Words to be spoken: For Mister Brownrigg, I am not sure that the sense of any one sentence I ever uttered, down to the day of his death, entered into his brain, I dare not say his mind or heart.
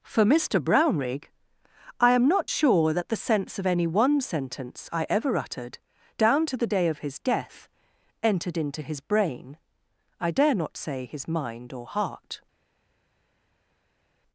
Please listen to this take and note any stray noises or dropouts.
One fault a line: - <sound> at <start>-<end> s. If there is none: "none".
none